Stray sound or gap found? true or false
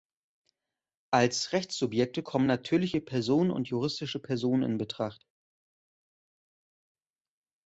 false